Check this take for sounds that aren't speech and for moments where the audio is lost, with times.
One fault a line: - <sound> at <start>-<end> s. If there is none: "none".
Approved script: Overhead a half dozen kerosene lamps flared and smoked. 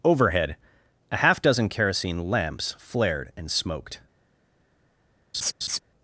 - laugh at 5.3-5.8 s